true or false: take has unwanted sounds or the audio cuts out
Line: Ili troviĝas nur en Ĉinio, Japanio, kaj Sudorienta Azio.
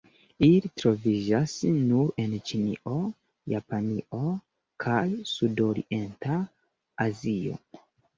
false